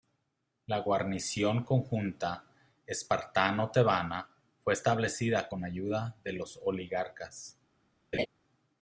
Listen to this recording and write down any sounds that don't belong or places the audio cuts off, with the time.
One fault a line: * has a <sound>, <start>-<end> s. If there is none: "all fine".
* has a laugh, 8.1-8.3 s